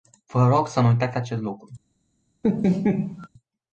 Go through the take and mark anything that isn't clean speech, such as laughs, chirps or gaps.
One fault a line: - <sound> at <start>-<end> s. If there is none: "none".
- laugh at 2.4-3.3 s